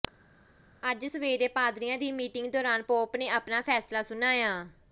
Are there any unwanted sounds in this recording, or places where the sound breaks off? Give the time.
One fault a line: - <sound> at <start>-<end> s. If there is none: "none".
none